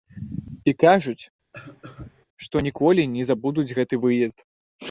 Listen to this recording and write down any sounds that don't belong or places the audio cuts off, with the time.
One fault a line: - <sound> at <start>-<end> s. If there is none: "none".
- cough at 1.5-2.3 s